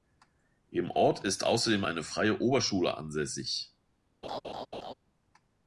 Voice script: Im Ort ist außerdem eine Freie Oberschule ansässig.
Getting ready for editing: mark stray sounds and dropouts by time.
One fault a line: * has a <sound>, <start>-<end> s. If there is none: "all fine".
* has a laugh, 4.2-4.9 s